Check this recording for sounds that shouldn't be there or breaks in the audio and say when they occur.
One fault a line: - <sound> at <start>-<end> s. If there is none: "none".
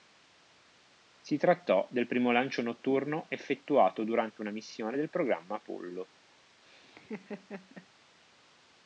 - laugh at 6.6-7.9 s